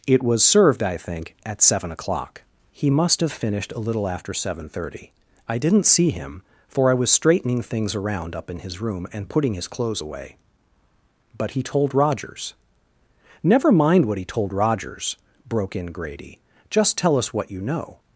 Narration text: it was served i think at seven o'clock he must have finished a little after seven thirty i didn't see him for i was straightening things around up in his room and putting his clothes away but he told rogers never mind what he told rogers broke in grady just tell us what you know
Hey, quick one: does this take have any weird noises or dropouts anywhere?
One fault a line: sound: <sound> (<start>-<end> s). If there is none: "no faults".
no faults